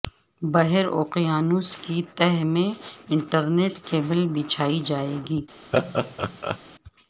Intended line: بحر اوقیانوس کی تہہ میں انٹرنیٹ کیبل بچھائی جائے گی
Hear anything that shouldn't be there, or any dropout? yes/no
yes